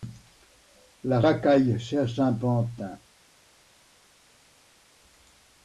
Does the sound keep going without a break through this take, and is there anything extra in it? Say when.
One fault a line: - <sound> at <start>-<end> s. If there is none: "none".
none